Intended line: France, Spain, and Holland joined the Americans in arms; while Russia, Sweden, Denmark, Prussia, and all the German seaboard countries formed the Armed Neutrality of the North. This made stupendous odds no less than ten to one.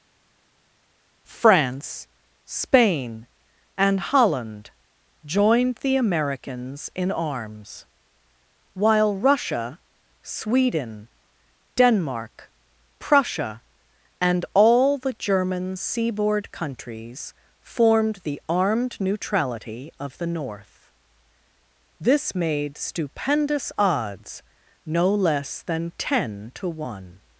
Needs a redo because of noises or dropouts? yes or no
no